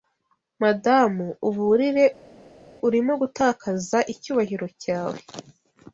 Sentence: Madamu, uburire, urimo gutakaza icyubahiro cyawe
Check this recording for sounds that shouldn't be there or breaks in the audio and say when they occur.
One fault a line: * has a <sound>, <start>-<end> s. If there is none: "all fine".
all fine